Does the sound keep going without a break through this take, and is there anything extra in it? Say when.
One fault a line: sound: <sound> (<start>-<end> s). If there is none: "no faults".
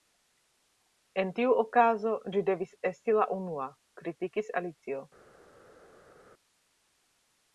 no faults